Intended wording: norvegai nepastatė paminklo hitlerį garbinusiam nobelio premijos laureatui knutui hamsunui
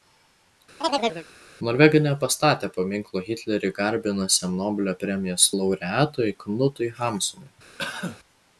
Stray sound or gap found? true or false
true